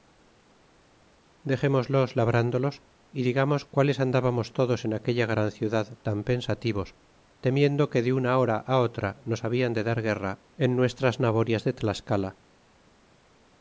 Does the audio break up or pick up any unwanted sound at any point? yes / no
no